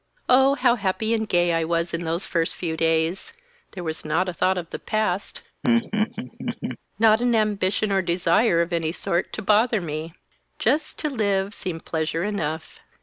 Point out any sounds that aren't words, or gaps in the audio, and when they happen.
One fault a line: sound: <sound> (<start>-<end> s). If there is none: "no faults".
sound: laugh (5.6-6.8 s)